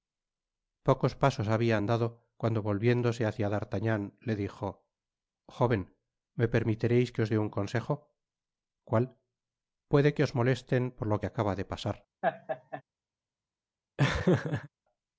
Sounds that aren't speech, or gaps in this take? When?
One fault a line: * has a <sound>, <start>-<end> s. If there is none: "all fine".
* has a laugh, 12.2-12.8 s
* has a laugh, 14.0-14.7 s